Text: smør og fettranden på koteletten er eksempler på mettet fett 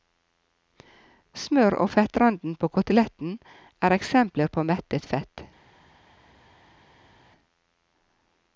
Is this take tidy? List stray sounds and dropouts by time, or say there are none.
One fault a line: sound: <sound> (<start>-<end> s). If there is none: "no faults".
no faults